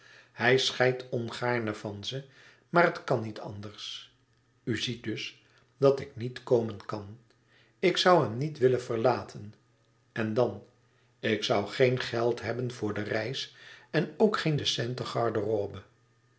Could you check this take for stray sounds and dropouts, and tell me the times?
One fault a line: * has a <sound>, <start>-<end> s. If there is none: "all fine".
all fine